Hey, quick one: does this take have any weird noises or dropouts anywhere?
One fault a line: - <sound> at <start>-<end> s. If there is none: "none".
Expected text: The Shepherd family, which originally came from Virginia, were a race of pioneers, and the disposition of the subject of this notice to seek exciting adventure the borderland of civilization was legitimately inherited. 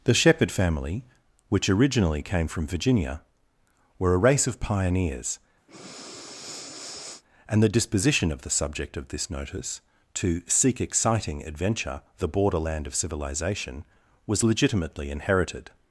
- breath at 5.7-7.2 s